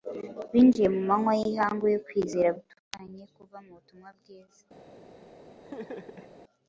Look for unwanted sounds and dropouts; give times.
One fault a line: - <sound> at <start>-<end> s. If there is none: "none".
- laugh at 5.6-6.3 s